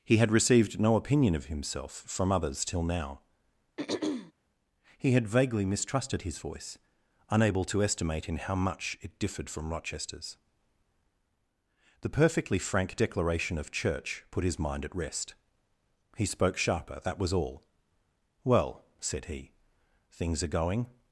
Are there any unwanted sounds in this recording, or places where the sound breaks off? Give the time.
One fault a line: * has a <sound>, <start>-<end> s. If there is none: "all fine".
* has a throat clearing, 3.8-4.3 s